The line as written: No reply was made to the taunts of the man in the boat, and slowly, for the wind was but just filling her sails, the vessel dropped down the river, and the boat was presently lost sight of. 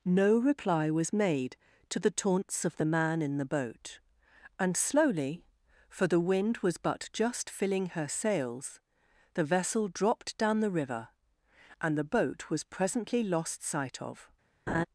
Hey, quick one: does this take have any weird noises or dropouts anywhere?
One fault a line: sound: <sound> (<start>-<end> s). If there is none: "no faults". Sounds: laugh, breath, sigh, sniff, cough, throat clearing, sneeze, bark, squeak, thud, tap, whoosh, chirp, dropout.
sound: laugh (14.7-14.9 s)